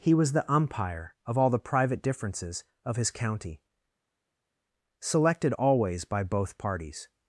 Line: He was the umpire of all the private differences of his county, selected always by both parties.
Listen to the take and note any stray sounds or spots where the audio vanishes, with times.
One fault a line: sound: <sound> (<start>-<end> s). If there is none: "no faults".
no faults